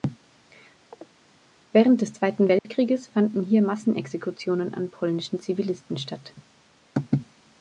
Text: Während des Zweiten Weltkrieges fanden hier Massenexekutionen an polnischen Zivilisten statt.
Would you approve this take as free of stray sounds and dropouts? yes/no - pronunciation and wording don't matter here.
no